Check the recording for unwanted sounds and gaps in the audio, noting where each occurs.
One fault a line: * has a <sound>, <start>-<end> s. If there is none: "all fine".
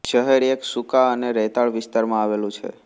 all fine